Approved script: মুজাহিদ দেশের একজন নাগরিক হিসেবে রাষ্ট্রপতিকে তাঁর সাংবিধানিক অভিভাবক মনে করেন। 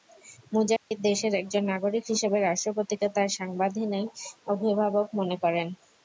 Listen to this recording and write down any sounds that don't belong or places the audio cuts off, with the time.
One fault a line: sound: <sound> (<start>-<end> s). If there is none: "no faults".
sound: dropout (0.8-0.9 s)